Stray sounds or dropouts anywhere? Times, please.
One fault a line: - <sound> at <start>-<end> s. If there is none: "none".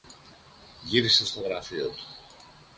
none